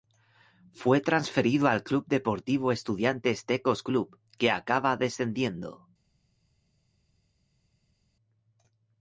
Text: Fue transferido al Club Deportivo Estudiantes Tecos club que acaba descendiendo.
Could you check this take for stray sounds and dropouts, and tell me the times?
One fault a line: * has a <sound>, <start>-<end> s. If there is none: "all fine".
all fine